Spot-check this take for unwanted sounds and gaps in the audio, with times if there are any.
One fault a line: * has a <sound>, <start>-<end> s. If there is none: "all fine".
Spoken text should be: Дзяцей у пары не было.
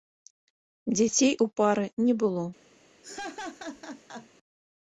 * has a laugh, 3.0-4.3 s